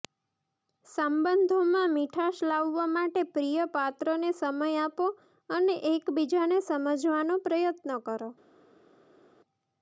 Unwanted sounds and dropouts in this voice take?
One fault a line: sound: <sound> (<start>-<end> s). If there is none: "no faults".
no faults